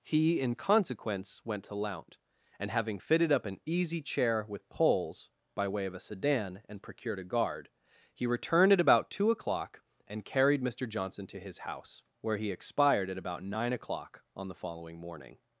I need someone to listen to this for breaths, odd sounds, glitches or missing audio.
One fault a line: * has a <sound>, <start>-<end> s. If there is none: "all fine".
all fine